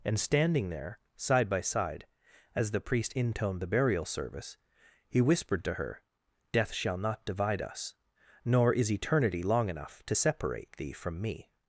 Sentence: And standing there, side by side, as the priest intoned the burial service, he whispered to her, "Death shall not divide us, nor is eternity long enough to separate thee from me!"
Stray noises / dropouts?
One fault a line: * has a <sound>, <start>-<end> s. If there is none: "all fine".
all fine